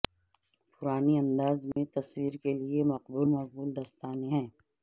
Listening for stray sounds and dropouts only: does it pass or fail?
fail